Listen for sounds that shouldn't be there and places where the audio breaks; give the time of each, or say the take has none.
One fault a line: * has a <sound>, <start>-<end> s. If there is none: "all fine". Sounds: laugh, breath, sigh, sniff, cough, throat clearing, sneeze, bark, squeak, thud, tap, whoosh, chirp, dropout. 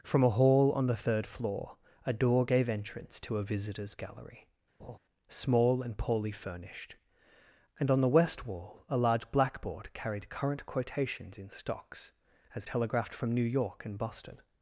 * has a laugh, 4.8-5.0 s